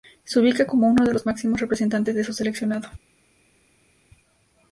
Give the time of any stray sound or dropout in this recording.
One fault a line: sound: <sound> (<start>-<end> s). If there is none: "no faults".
no faults